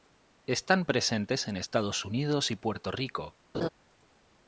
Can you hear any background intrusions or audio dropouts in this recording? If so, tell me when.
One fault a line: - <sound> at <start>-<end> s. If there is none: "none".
- laugh at 3.5-3.7 s